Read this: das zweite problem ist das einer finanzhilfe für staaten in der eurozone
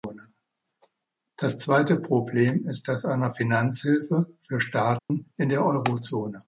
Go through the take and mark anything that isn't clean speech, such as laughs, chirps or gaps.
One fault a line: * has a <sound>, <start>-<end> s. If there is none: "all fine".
* has a dropout, 5.0-5.1 s